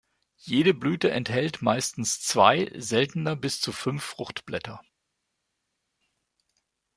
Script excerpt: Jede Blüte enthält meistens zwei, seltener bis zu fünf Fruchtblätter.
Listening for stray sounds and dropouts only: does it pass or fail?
pass